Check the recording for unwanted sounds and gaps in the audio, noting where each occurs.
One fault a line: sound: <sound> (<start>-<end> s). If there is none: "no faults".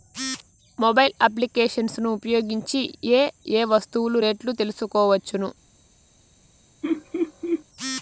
sound: laugh (6.8-7.6 s)